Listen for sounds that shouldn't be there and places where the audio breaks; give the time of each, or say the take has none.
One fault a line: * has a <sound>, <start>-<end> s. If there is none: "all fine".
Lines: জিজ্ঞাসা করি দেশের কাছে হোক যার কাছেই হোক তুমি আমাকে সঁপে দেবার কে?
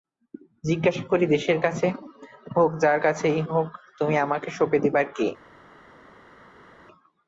all fine